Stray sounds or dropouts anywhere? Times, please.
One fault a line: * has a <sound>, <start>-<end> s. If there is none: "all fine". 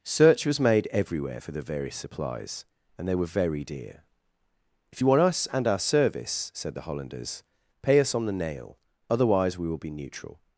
all fine